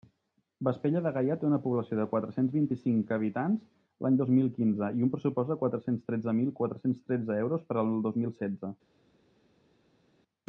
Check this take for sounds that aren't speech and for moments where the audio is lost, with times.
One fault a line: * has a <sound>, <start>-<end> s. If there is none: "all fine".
all fine